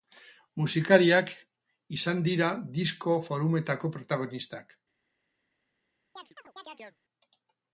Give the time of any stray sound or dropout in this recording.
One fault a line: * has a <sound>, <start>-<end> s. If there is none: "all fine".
* has a chirp, 6.2-7.0 s